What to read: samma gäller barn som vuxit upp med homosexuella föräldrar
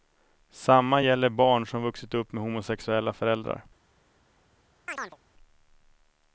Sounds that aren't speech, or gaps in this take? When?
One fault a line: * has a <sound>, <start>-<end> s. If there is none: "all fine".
* has a chirp, 4.9-5.2 s